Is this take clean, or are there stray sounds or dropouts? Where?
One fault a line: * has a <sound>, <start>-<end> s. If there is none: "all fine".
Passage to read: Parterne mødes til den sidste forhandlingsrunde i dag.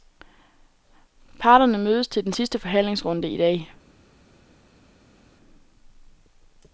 all fine